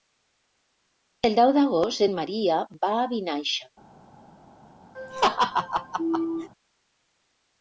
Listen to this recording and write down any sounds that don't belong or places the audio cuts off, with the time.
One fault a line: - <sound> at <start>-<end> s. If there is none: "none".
- laugh at 4.9-6.5 s